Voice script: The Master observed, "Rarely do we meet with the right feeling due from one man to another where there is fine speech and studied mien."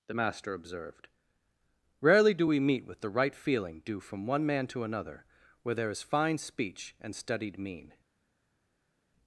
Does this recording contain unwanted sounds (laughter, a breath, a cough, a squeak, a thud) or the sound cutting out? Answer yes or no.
no